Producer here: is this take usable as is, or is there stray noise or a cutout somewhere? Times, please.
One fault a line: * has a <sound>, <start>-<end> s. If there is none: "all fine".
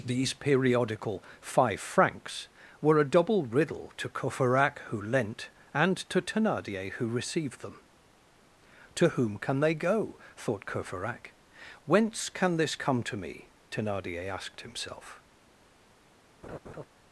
* has a laugh, 16.4-16.8 s